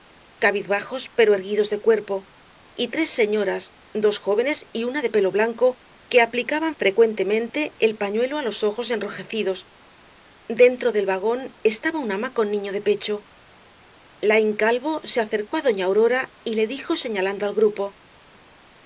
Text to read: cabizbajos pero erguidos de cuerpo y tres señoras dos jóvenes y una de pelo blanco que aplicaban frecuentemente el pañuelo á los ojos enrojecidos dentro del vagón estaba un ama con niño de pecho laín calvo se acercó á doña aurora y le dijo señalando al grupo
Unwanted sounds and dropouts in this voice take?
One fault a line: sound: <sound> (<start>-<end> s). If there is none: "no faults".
no faults